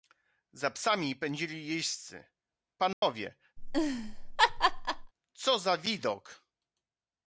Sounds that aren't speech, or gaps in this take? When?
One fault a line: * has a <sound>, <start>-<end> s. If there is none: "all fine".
* has a dropout, 2.9-3.0 s
* has a laugh, 3.6-5.1 s